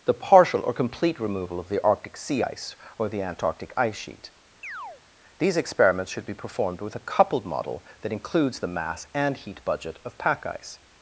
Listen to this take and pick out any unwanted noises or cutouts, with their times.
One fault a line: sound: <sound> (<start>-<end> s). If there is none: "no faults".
sound: chirp (4.6-5.0 s)